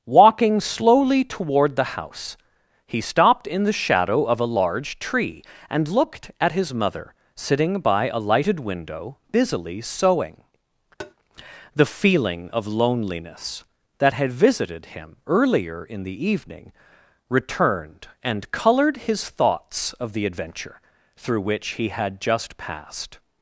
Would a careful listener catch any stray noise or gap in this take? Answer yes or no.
yes